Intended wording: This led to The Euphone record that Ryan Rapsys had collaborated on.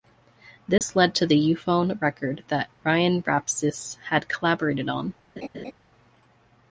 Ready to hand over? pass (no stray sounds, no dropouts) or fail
fail